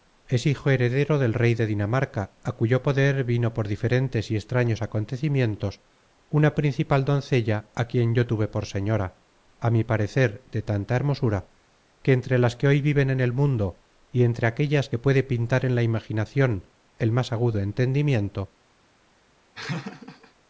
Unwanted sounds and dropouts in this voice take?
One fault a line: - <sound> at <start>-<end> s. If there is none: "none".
- laugh at 19.5-20.3 s